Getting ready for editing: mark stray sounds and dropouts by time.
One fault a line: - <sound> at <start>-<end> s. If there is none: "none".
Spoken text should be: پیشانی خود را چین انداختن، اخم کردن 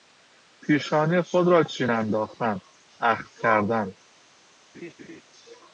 - laugh at 4.7-5.2 s